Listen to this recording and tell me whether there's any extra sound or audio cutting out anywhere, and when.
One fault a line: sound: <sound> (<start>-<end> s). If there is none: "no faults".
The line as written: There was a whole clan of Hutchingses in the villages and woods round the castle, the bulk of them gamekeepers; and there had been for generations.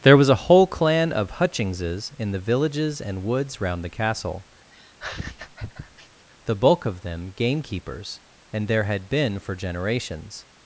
sound: laugh (4.7-6.3 s)